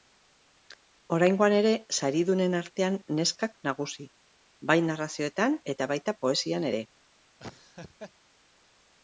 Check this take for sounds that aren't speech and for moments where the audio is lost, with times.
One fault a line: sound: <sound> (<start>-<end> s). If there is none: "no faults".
sound: laugh (7.4-8.1 s)